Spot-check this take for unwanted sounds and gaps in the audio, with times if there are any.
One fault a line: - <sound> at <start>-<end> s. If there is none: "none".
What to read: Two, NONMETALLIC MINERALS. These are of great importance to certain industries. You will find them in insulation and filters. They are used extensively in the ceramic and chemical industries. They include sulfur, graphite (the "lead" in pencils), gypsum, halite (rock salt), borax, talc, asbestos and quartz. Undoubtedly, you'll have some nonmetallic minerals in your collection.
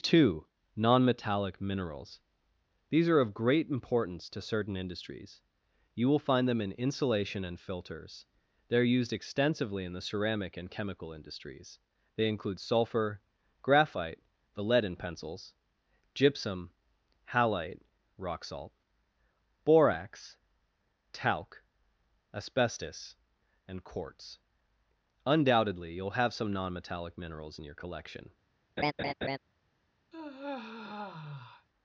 - laugh at 28.8-29.4 s
- sigh at 30.1-31.7 s